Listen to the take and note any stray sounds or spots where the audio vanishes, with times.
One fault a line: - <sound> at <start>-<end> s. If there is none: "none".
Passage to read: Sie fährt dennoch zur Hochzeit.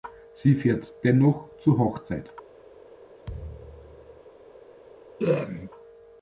- thud at 3.2-4.2 s
- throat clearing at 5.2-5.7 s